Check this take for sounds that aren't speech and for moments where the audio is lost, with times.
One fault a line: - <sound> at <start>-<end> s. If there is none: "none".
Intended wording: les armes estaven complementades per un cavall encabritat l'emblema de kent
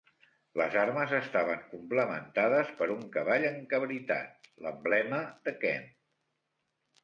none